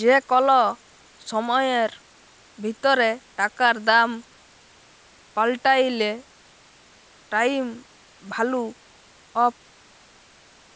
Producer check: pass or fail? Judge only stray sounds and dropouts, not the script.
pass